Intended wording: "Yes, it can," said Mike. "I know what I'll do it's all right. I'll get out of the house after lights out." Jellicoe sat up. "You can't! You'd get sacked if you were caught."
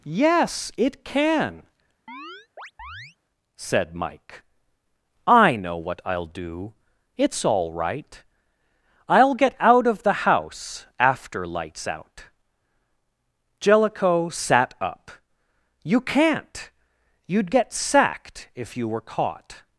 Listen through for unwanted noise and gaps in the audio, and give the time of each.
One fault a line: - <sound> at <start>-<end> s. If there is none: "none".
- chirp at 2.1-3.2 s